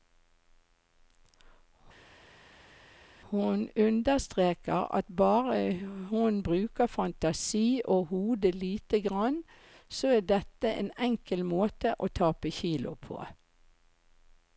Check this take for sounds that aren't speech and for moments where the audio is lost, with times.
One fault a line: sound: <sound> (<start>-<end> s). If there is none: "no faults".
no faults